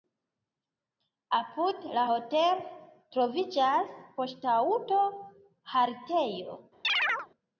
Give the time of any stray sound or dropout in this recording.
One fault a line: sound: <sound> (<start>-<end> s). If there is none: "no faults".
sound: chirp (6.8-7.3 s)